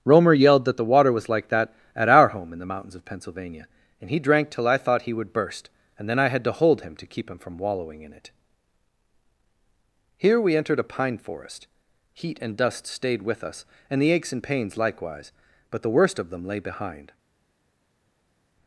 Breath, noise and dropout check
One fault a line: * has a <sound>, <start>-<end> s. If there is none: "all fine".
all fine